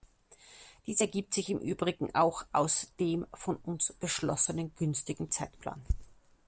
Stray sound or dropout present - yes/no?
no